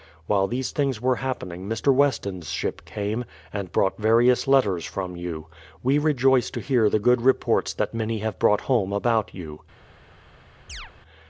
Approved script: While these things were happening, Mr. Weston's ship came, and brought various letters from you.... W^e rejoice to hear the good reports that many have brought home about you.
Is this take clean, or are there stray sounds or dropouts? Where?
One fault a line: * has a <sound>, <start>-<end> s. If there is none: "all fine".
* has a chirp, 10.7-10.9 s